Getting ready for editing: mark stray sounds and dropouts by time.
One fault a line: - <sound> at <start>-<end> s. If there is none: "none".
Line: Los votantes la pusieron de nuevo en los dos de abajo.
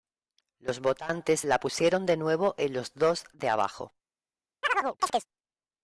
- chirp at 4.6-5.3 s